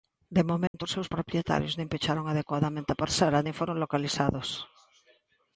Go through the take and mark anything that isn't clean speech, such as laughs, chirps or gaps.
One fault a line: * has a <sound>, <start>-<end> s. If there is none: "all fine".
* has a dropout, 0.7-0.7 s